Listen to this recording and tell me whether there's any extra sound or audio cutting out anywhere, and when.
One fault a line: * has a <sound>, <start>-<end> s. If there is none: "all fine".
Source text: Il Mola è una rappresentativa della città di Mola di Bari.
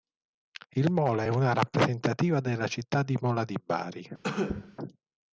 * has a cough, 4.2-4.8 s